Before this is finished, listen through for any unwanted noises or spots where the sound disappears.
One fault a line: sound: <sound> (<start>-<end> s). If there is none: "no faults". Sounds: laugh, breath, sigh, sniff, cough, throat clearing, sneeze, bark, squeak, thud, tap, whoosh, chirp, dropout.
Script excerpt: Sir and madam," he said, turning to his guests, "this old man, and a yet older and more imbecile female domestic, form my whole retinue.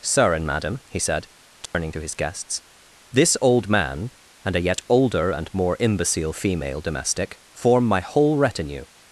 sound: dropout (1.7-1.7 s)